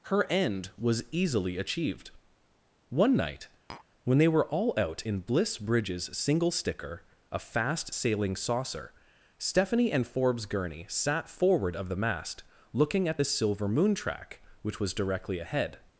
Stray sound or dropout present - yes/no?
yes